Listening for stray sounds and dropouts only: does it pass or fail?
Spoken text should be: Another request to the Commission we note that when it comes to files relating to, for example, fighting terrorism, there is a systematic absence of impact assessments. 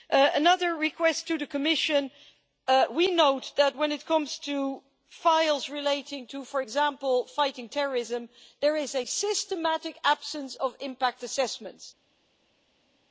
pass